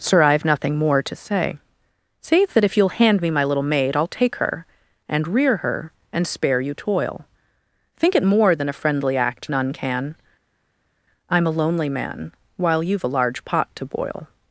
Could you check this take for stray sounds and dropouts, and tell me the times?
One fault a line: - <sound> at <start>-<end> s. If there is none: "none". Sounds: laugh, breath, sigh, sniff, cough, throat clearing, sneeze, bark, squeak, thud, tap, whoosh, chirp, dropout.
none